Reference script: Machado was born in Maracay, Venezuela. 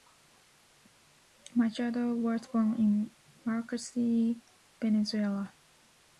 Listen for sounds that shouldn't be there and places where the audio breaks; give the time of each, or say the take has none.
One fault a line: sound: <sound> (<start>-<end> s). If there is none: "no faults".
no faults